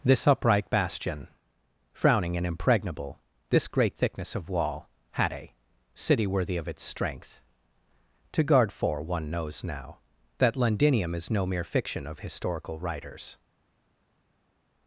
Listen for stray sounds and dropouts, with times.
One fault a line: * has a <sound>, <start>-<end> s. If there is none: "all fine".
all fine